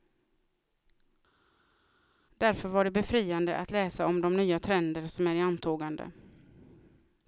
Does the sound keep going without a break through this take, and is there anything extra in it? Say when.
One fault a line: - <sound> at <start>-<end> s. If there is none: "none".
none